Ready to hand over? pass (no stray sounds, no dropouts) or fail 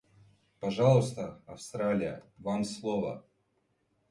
pass